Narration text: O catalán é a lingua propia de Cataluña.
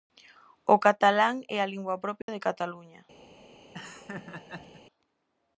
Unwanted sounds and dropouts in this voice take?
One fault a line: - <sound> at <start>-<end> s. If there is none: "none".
- dropout at 2.2-2.3 s
- laugh at 3.7-4.8 s